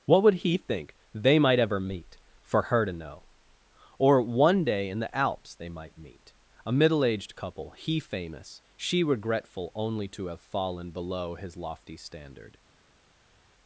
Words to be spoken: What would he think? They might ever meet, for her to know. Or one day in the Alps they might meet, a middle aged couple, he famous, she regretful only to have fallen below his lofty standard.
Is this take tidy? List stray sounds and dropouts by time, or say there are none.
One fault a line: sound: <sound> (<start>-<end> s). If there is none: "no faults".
no faults